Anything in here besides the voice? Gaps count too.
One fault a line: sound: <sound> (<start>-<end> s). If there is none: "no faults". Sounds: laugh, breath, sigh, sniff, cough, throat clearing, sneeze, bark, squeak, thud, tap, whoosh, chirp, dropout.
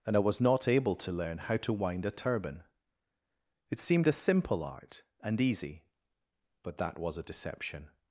no faults